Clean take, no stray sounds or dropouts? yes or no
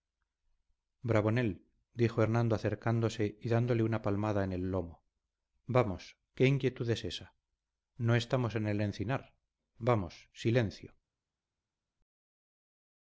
yes